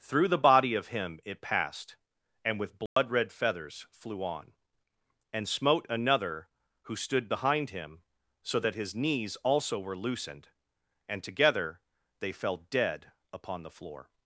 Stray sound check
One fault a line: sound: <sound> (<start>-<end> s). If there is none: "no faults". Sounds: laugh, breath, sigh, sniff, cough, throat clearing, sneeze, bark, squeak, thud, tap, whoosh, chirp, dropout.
sound: dropout (2.9-3.0 s)